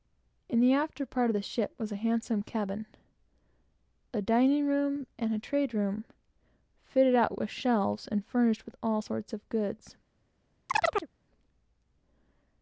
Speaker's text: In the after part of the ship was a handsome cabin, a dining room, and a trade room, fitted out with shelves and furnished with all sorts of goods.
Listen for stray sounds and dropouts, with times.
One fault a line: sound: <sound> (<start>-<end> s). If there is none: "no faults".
sound: chirp (10.7-11.1 s)